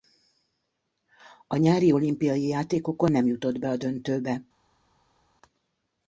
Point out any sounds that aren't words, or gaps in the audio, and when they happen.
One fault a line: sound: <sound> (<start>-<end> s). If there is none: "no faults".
no faults